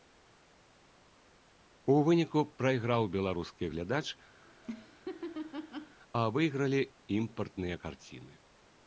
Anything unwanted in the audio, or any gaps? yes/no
yes